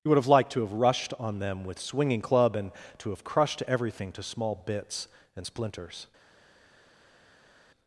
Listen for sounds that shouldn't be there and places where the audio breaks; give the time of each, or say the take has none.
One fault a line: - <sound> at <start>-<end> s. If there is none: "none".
none